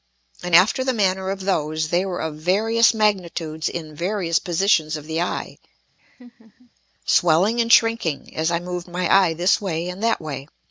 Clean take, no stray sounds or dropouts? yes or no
no